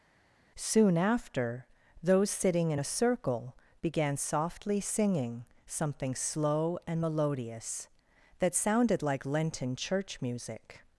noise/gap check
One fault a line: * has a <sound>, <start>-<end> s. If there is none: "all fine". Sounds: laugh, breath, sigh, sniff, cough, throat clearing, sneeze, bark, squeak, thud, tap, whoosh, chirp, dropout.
all fine